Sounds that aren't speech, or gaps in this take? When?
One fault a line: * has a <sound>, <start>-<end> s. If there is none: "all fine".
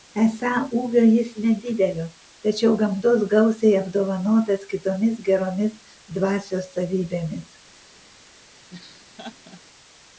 * has a laugh, 8.7-9.6 s